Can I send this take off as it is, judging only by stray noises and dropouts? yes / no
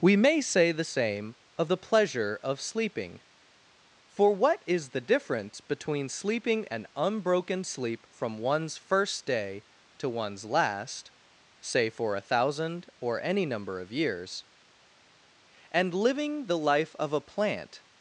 yes